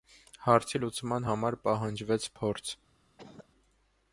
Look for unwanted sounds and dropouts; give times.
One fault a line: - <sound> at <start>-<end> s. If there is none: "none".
- cough at 3.2-3.5 s